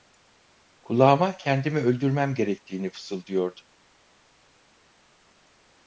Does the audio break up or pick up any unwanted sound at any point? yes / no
no